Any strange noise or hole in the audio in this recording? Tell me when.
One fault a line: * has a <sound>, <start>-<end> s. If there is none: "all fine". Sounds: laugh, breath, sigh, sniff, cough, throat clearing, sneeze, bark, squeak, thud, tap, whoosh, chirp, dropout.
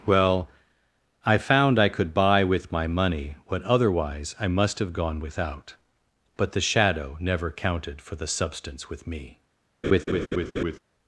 * has a laugh, 9.8-10.8 s